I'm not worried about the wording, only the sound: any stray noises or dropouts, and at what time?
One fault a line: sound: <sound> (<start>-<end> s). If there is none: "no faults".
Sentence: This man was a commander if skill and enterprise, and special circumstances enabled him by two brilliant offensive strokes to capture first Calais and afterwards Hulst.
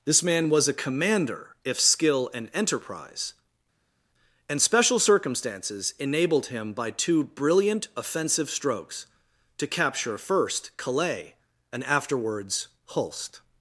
no faults